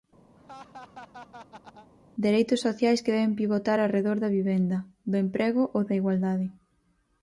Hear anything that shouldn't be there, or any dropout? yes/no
yes